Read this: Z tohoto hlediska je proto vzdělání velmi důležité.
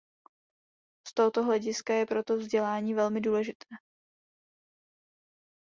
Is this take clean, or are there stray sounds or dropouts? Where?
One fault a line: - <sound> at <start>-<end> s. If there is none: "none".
none